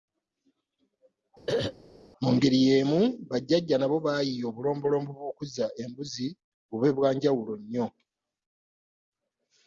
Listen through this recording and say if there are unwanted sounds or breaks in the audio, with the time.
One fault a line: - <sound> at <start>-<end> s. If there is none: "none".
- throat clearing at 1.5-1.7 s